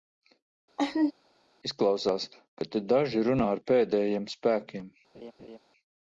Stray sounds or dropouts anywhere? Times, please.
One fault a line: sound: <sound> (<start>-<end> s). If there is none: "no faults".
sound: laugh (0.8-1.1 s)
sound: laugh (5.1-5.6 s)